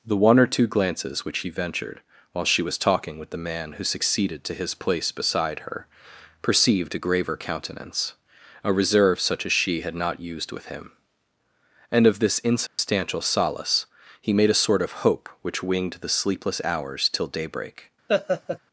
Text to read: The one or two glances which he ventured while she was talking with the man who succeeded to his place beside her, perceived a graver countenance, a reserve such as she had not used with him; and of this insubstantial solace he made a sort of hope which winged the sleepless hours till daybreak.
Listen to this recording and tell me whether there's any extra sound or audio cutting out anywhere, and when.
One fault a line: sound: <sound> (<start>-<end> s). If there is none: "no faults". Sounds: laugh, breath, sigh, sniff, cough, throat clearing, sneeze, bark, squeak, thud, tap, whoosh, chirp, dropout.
sound: dropout (12.7-12.8 s)
sound: laugh (18.1-18.6 s)